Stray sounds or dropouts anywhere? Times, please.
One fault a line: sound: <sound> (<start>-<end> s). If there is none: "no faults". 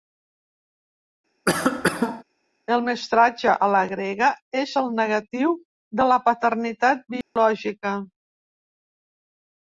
sound: cough (1.5-2.2 s)
sound: dropout (7.2-7.4 s)